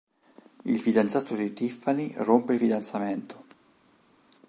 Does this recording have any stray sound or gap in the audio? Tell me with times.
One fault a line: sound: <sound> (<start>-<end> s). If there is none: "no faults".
no faults